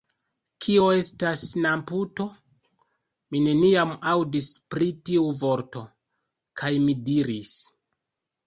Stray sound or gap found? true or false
false